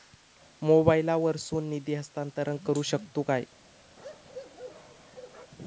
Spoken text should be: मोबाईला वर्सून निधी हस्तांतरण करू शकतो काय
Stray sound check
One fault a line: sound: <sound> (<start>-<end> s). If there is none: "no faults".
sound: bark (4.0-5.5 s)